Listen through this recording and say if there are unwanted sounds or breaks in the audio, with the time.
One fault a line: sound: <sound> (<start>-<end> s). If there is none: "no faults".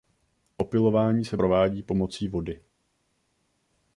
no faults